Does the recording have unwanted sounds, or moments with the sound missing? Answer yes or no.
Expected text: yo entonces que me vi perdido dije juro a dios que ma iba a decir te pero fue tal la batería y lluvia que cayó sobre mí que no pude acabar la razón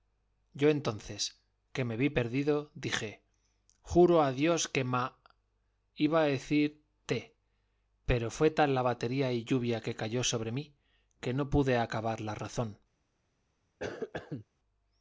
yes